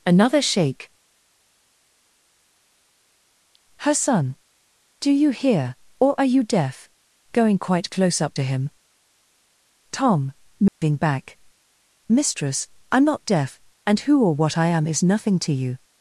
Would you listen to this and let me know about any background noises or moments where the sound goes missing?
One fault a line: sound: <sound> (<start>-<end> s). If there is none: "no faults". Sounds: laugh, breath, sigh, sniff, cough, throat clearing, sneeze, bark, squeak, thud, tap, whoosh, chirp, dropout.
sound: dropout (10.7-10.8 s)